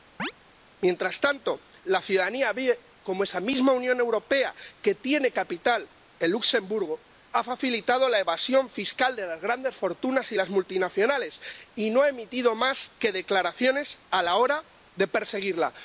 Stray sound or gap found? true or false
true